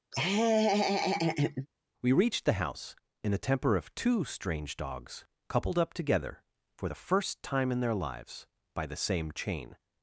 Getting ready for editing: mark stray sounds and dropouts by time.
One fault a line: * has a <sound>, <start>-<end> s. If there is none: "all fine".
* has a laugh, 0.1-1.7 s